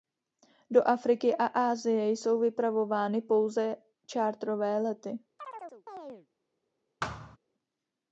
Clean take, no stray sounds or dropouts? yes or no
no